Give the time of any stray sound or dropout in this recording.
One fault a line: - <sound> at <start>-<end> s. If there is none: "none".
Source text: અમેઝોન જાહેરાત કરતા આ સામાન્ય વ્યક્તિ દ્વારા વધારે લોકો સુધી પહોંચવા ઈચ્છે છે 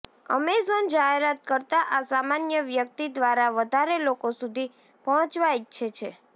none